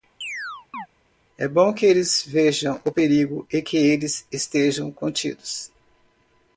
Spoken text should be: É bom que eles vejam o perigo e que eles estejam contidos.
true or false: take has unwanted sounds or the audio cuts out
true